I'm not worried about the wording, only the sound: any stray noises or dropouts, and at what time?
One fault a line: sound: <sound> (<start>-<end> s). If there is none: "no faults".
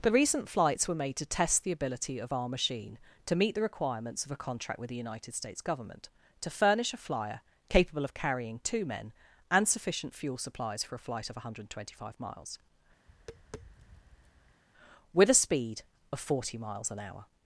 sound: tap (13.1-14.6 s)